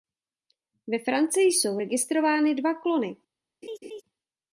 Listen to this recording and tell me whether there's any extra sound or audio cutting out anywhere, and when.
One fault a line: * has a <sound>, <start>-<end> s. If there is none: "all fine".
* has a laugh, 3.6-4.0 s